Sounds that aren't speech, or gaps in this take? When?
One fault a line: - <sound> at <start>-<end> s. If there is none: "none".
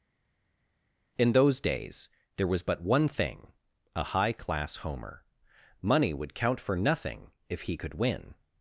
none